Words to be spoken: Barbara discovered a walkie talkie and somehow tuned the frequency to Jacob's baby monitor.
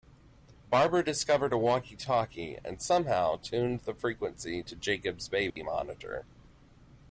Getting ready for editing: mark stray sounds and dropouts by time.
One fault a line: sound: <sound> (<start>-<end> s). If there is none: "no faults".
sound: dropout (5.5-5.6 s)